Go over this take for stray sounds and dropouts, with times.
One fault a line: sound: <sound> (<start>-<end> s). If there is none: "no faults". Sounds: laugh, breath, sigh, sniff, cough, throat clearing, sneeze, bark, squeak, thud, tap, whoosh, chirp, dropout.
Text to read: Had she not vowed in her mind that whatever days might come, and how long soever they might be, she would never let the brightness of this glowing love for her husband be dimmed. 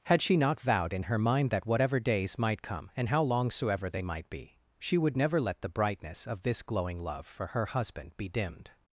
no faults